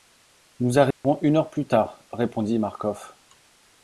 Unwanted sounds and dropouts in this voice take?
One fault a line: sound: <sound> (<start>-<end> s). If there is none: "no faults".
sound: dropout (0.9-1.0 s)